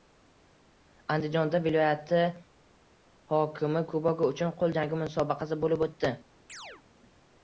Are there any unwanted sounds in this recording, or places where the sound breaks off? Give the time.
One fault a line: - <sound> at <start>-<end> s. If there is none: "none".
- chirp at 6.5-6.8 s